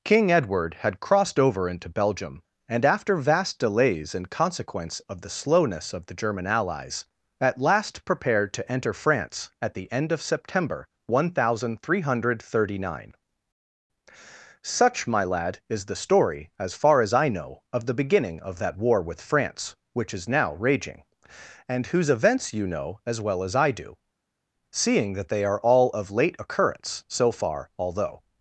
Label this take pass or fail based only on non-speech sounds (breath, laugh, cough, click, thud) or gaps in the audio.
pass